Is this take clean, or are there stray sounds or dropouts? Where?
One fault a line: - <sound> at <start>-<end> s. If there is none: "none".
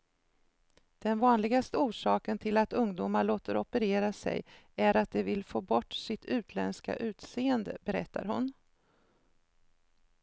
none